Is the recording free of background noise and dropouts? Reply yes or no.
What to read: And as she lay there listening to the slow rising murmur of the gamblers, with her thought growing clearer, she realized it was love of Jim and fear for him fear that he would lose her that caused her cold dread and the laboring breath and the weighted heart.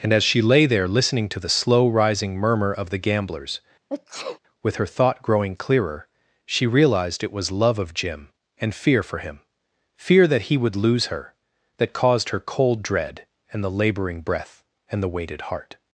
no